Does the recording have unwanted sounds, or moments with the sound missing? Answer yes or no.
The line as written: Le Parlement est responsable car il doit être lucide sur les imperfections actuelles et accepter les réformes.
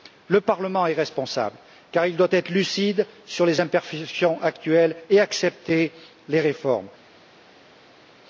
no